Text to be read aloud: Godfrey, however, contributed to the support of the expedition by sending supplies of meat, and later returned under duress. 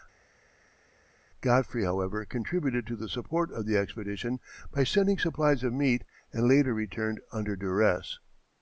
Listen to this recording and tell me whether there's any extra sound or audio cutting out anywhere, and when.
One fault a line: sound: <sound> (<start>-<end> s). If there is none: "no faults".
no faults